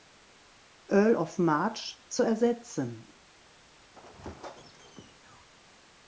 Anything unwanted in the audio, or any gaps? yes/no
yes